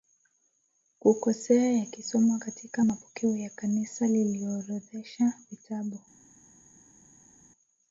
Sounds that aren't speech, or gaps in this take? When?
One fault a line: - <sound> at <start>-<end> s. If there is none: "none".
none